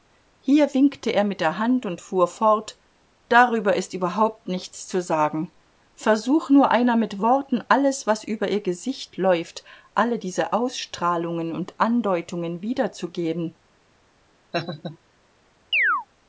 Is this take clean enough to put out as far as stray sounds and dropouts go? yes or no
no